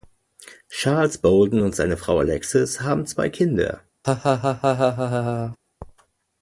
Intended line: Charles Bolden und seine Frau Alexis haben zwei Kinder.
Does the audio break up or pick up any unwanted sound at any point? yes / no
yes